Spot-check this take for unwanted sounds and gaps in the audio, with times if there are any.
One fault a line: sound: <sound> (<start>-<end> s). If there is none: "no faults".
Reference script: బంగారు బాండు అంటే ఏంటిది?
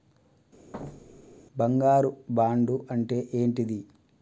sound: thud (0.7-1.4 s)